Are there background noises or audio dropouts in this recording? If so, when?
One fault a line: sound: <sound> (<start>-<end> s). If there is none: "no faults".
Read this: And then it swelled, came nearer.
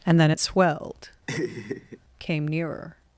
sound: laugh (1.3-2.0 s)